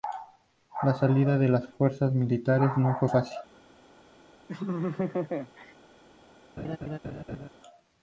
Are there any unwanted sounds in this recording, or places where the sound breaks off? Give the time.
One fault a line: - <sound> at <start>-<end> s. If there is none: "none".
- laugh at 4.5-5.7 s
- laugh at 6.6-7.5 s